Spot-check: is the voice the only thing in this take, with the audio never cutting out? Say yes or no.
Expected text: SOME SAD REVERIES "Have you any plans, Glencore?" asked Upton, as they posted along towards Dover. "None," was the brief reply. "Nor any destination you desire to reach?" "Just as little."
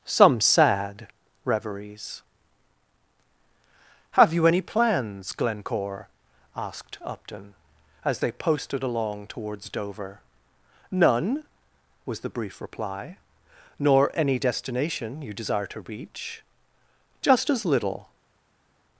yes